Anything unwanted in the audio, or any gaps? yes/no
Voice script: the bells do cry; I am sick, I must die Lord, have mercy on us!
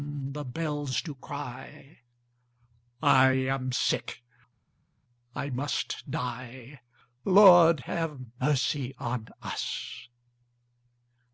no